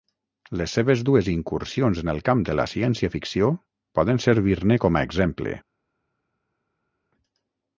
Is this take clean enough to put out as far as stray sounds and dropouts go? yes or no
yes